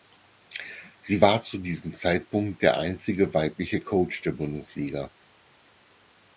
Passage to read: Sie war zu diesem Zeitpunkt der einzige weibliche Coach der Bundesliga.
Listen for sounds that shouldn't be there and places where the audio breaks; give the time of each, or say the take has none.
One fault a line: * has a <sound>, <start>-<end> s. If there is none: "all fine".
all fine